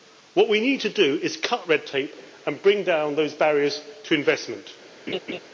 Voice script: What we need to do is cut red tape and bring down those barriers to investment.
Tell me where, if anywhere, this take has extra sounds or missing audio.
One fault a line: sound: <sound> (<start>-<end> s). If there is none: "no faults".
sound: laugh (5.1-5.4 s)